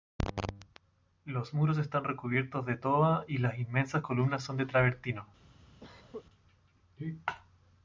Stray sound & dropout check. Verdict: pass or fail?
fail